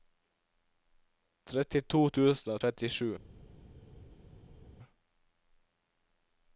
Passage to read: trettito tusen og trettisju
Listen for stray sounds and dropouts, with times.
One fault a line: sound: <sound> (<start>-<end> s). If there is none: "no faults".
no faults